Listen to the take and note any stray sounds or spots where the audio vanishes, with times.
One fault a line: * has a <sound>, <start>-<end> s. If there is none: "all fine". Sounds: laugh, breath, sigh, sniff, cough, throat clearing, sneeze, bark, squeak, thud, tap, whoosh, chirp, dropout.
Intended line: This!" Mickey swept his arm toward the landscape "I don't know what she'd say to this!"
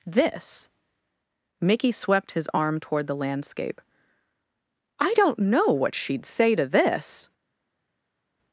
all fine